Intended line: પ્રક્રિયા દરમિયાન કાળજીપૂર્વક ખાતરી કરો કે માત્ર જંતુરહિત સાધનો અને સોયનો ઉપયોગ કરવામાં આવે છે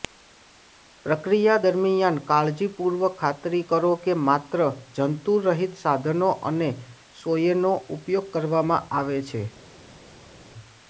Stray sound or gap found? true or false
false